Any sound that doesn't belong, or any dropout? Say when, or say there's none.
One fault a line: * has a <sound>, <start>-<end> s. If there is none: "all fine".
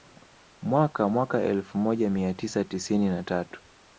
all fine